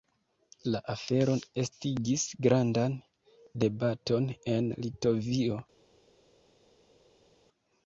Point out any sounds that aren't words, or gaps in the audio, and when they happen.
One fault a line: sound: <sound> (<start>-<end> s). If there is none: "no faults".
no faults